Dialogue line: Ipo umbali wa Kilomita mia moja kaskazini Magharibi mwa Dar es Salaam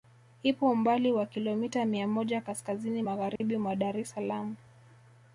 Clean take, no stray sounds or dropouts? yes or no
no